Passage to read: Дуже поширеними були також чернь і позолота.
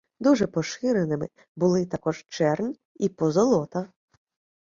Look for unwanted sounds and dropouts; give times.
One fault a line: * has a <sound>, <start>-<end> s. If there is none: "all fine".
all fine